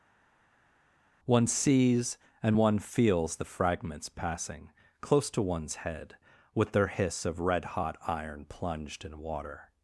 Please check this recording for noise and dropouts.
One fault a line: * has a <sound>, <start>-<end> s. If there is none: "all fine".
all fine